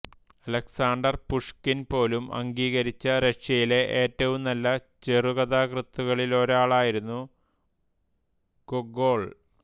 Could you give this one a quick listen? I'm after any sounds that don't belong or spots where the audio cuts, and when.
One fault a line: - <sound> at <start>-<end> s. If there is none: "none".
none